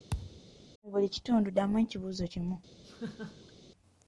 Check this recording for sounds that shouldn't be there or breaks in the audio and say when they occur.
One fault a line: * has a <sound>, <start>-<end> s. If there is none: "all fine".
* has a thud, 0.1-0.4 s
* has a laugh, 2.8-3.5 s